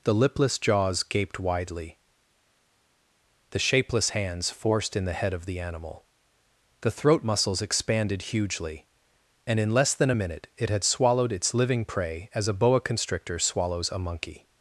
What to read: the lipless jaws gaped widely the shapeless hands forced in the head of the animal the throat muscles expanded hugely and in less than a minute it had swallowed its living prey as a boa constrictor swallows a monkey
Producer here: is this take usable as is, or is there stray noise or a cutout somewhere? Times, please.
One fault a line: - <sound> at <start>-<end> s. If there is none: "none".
none